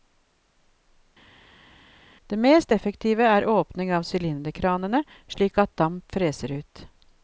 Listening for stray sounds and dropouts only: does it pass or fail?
pass